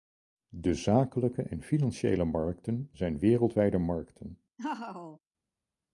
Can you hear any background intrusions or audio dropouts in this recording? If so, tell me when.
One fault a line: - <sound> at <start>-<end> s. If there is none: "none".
- laugh at 4.6-5.2 s